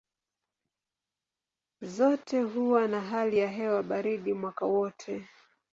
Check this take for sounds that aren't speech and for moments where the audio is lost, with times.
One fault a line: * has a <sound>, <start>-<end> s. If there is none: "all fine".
all fine